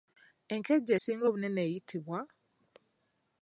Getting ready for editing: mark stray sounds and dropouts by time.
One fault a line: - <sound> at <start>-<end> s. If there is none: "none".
none